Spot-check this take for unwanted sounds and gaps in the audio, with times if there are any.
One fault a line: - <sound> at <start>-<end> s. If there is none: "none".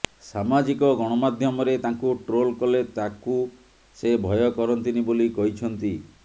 none